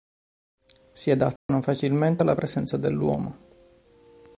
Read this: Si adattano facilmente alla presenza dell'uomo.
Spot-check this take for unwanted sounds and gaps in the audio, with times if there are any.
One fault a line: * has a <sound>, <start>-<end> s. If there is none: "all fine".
* has a dropout, 1.4-1.5 s